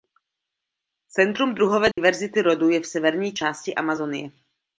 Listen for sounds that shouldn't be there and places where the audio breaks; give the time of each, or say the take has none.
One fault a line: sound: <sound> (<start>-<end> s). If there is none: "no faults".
sound: dropout (1.9-2.0 s)